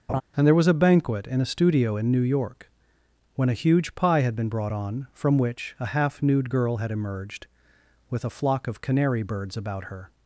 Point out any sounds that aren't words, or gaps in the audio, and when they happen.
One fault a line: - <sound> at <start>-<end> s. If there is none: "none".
- laugh at 0.1-0.2 s